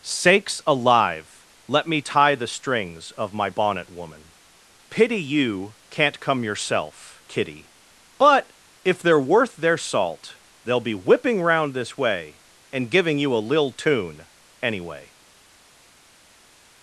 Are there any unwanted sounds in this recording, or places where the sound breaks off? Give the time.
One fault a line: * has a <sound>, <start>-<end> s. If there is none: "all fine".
all fine